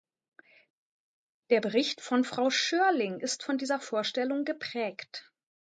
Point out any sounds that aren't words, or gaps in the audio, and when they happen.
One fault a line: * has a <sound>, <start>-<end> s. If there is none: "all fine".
all fine